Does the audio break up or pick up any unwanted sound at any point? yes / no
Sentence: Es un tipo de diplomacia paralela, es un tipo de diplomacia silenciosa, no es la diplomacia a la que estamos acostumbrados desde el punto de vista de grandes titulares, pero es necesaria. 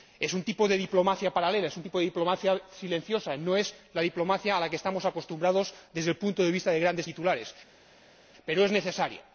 no